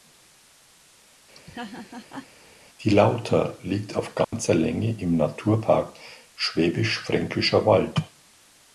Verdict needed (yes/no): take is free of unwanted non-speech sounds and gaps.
no